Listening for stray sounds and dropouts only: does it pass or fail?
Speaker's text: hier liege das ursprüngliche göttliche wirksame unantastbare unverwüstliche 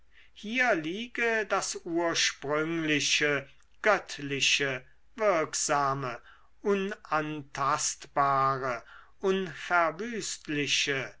pass